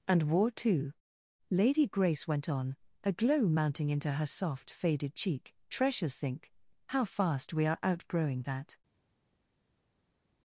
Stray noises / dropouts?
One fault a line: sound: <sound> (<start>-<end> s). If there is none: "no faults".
no faults